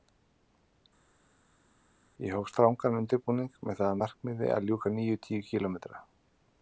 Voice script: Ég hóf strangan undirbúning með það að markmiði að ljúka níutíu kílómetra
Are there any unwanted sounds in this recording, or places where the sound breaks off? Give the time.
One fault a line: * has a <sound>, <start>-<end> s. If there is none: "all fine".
all fine